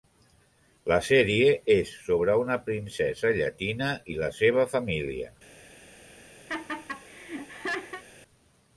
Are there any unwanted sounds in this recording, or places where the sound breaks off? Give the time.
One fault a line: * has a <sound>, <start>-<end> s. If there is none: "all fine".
* has a laugh, 6.5-8.0 s